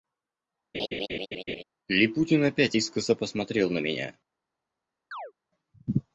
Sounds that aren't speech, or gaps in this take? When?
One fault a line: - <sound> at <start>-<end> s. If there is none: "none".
- laugh at 0.7-1.6 s
- chirp at 5.1-5.3 s